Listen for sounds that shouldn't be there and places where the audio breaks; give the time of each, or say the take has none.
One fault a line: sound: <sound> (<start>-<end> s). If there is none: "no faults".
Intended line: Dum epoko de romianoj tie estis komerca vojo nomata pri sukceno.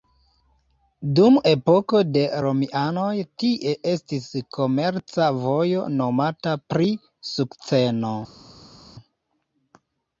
no faults